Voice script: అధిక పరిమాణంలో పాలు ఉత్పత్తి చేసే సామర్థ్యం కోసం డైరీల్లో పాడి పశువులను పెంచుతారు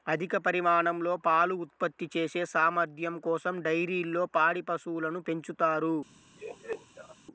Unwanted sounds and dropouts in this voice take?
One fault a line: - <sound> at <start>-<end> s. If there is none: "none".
- laugh at 6.4-7.2 s